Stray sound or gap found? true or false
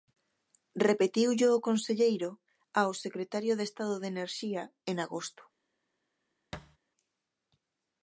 true